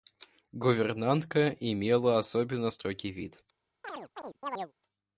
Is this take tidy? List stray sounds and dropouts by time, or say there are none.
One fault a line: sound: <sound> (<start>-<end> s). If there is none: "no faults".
sound: chirp (3.8-4.7 s)